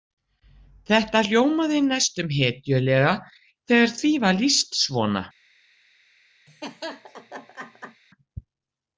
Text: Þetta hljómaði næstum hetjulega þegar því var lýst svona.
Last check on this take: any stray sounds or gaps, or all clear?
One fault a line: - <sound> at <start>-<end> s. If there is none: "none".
- laugh at 6.5-8.0 s